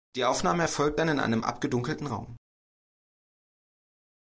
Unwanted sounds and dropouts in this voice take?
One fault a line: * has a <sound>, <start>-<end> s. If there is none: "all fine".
all fine